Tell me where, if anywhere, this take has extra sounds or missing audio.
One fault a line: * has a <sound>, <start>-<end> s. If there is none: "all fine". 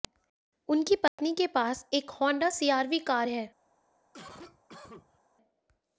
* has a dropout, 1.1-1.2 s
* has a cough, 4.1-5.2 s